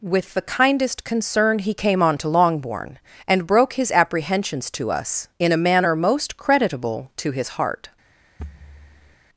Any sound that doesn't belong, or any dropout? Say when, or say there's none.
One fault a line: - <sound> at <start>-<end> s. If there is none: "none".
- thud at 8.4-9.2 s